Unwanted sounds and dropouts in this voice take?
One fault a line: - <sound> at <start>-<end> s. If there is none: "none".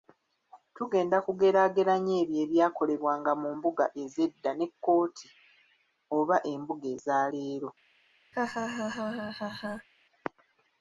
- laugh at 8.3-9.9 s